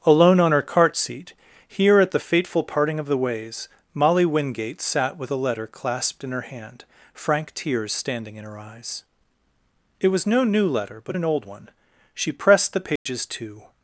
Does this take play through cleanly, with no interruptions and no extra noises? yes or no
no